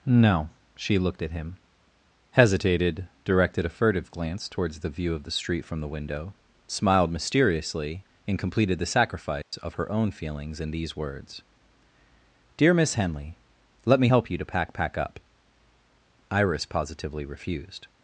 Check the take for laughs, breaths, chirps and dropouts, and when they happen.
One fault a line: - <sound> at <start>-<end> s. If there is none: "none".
- dropout at 9.4-9.5 s